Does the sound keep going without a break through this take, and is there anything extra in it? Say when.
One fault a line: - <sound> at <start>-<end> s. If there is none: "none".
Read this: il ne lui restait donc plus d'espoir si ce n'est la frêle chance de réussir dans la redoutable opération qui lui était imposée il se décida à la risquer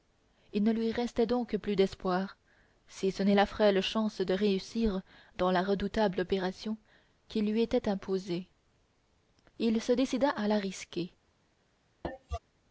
- cough at 12.0-12.4 s